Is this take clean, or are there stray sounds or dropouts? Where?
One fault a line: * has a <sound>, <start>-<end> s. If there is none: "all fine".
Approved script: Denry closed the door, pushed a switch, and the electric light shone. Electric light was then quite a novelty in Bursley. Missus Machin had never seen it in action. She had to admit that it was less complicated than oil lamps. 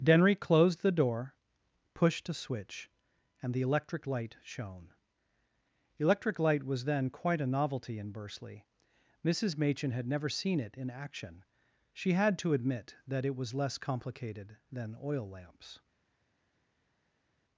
all fine